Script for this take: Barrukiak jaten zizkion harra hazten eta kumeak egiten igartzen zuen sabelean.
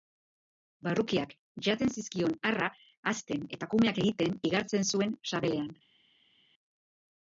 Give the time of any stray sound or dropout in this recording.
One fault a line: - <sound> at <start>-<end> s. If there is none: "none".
none